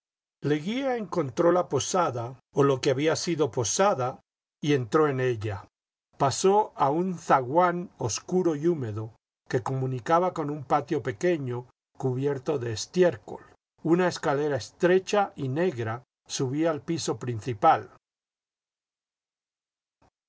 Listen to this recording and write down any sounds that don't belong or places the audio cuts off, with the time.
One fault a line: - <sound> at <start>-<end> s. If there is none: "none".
none